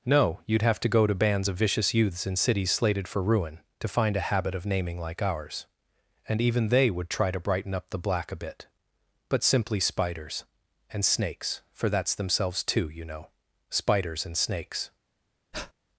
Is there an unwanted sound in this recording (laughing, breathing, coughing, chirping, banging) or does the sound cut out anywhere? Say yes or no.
yes